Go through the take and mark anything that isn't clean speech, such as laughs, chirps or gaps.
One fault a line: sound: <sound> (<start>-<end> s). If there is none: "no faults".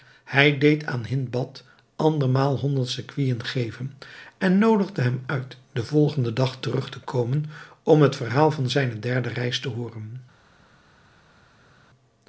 no faults